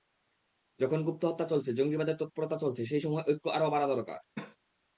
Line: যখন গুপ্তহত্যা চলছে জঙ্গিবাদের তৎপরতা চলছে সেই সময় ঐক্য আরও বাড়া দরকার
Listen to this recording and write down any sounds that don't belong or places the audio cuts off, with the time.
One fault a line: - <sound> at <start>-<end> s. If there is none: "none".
- cough at 4.4-4.6 s